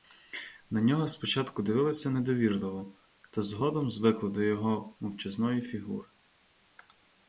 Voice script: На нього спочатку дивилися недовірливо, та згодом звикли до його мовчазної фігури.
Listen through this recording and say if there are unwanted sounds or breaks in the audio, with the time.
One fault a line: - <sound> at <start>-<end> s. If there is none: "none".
none